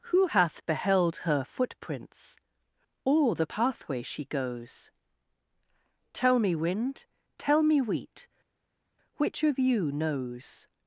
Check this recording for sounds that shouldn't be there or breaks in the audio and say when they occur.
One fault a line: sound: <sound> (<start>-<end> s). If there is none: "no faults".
no faults